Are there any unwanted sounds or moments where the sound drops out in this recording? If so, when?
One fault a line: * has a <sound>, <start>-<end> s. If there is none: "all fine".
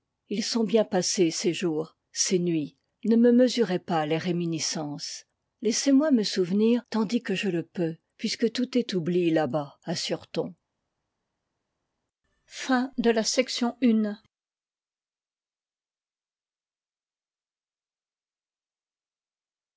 all fine